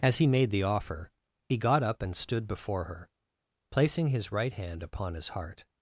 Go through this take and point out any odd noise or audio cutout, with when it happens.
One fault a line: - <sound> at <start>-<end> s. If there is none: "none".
none